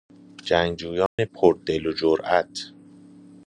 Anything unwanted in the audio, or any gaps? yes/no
yes